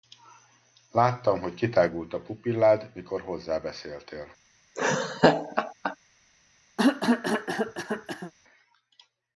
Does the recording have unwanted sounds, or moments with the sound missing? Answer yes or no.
yes